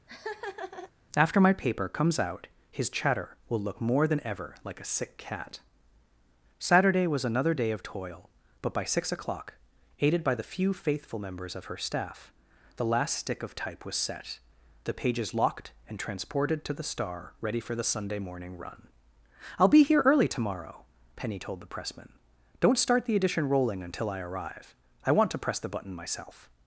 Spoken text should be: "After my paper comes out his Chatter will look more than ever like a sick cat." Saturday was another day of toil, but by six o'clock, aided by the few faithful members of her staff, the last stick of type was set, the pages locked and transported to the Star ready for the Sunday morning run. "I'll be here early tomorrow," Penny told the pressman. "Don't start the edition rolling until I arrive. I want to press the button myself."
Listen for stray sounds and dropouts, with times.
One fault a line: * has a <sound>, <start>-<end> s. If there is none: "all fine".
* has a laugh, 0.1-0.9 s